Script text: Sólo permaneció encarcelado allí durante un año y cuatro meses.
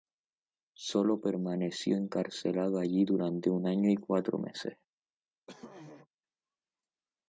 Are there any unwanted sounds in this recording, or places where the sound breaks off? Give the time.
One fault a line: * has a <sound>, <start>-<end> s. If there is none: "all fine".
* has a throat clearing, 5.5-6.1 s